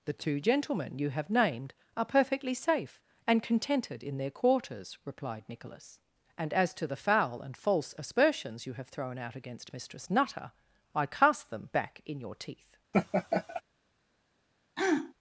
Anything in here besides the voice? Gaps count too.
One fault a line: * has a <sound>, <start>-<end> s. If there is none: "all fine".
* has a laugh, 12.9-13.6 s
* has a throat clearing, 14.8-15.1 s